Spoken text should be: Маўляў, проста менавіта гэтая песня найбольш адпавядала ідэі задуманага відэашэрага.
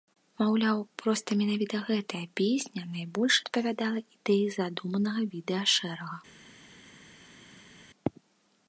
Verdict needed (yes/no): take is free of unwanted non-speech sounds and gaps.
yes